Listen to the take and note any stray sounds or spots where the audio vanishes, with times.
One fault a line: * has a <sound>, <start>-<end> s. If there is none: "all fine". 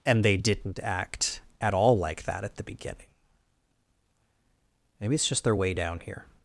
all fine